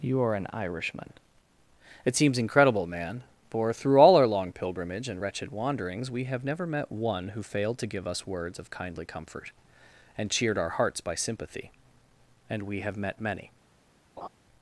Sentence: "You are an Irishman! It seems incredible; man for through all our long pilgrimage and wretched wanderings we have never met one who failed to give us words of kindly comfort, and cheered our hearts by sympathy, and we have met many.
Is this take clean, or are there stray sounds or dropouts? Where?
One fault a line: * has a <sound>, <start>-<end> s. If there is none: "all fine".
* has a laugh, 14.2-14.3 s